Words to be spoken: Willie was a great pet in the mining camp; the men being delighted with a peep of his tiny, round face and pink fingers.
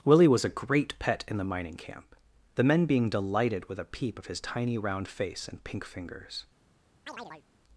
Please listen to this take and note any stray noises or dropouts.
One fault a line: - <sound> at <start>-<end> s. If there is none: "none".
- chirp at 7.1-7.4 s